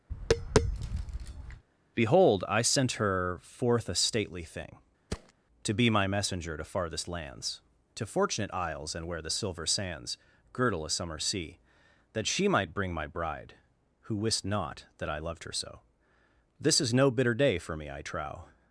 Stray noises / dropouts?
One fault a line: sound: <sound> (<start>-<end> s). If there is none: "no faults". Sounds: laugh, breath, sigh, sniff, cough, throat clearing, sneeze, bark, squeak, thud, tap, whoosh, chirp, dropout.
sound: tap (0.1-1.6 s)
sound: thud (5.1-5.3 s)